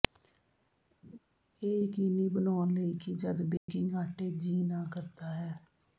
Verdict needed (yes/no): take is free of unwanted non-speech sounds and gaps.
no